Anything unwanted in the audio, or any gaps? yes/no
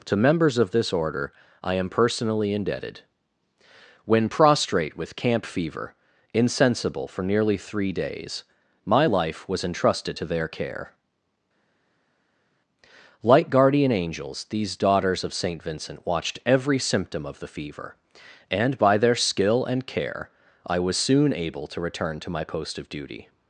no